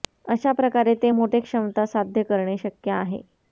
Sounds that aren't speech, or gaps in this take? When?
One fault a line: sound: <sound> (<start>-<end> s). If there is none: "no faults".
no faults